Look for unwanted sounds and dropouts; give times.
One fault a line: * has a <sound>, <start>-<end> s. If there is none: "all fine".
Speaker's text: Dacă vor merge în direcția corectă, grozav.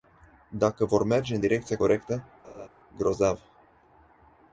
* has a laugh, 2.4-2.7 s